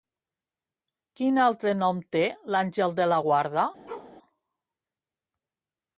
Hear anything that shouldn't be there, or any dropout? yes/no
yes